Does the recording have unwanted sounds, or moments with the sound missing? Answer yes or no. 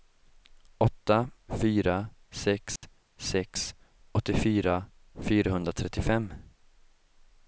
yes